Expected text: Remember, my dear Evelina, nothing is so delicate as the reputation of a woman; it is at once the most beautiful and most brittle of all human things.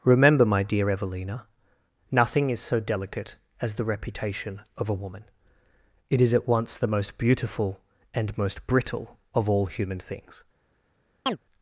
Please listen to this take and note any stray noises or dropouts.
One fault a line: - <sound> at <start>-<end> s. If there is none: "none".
- chirp at 11.3-11.4 s